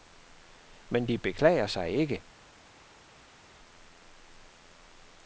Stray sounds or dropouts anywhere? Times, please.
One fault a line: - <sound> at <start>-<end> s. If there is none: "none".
none